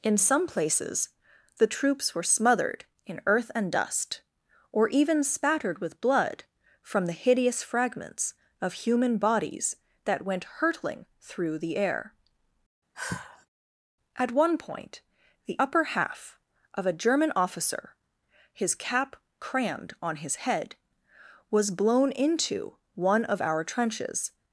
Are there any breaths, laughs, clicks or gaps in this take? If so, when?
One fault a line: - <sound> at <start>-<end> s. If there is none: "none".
- sigh at 12.9-13.5 s